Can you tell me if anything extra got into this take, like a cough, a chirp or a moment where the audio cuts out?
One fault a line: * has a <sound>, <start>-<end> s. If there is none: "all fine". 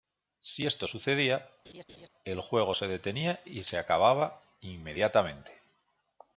* has a laugh, 1.6-2.1 s